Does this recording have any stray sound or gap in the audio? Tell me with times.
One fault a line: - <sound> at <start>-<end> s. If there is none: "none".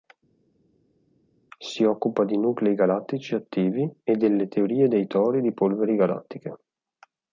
none